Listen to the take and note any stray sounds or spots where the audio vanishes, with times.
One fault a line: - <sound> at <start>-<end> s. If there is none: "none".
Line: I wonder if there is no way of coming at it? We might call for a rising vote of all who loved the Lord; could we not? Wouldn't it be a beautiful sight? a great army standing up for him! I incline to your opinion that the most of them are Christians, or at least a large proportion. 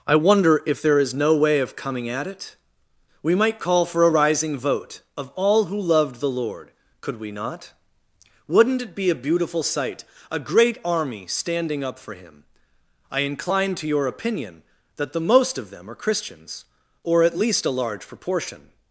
none